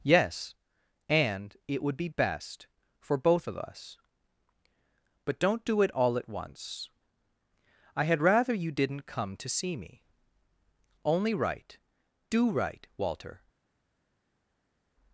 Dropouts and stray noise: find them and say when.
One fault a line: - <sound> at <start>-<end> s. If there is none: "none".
none